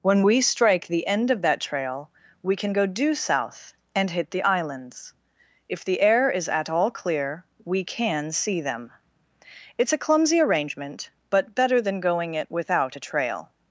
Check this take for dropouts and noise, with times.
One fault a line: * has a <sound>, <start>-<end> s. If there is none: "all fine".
all fine